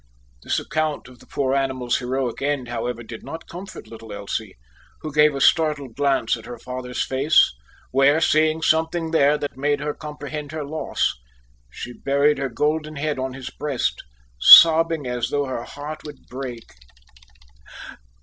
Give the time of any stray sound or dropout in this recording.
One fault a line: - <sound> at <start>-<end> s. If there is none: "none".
- dropout at 9.5-9.5 s